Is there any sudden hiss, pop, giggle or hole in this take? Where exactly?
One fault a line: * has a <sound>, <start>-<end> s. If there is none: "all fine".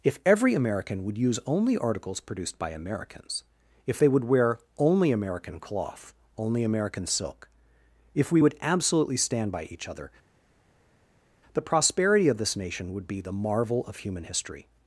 all fine